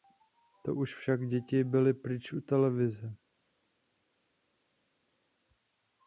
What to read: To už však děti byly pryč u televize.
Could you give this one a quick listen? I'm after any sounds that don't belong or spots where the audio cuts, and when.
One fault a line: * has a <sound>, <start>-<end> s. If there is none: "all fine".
all fine